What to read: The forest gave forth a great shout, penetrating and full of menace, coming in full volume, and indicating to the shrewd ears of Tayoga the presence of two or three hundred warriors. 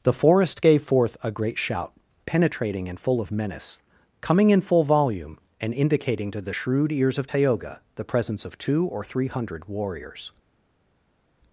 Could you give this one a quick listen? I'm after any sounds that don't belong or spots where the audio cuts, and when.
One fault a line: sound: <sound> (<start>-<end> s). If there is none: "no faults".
no faults